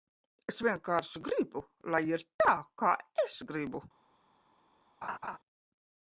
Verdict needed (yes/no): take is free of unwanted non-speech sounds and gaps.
no